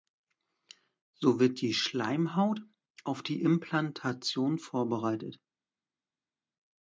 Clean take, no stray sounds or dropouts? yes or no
yes